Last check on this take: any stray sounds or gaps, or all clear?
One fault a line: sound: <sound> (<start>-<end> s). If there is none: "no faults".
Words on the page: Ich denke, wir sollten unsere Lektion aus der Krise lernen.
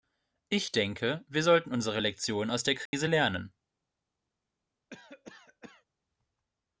sound: dropout (2.9-2.9 s)
sound: cough (4.9-5.8 s)